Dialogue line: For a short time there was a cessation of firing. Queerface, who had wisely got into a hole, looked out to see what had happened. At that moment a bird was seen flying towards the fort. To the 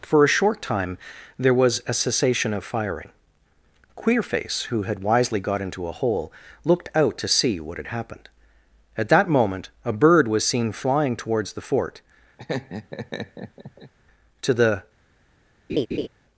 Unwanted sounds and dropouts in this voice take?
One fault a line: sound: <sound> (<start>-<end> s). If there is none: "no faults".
sound: laugh (12.4-13.9 s)
sound: laugh (15.7-16.1 s)